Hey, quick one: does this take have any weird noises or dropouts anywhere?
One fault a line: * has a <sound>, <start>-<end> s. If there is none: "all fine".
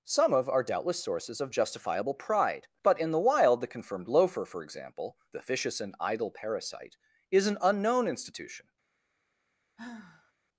* has a sigh, 9.8-10.3 s